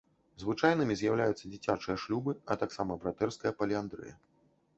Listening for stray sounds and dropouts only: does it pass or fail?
pass